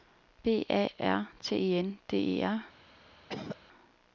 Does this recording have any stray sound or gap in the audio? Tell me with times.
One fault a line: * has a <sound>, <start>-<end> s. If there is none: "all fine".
* has a cough, 3.3-3.6 s